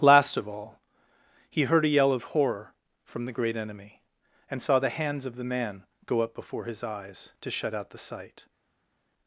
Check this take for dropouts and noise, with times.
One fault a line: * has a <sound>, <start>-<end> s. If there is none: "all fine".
all fine